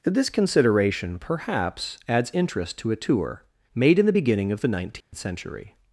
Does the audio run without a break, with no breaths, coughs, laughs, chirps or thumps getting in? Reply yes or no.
no